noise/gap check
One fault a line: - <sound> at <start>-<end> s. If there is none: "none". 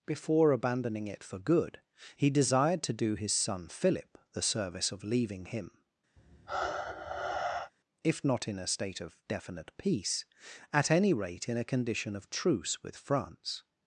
- sigh at 6.2-7.7 s